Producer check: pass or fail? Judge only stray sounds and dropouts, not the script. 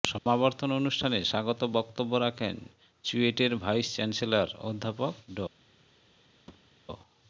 fail